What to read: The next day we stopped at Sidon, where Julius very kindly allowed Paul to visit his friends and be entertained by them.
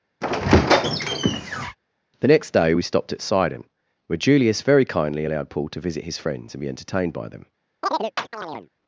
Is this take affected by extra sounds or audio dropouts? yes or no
yes